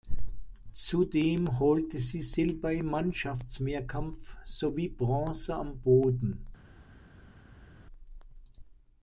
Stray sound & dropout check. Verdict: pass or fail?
pass